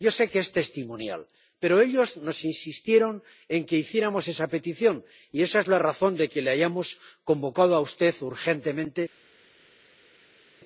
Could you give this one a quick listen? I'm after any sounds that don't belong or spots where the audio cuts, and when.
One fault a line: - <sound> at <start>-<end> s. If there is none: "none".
none